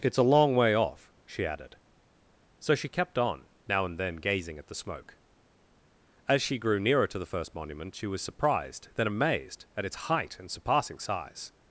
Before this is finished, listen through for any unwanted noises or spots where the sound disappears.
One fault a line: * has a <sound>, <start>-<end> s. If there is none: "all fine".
all fine